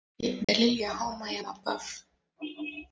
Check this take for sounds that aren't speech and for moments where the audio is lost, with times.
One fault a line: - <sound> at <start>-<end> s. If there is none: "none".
- dropout at 0.4-0.5 s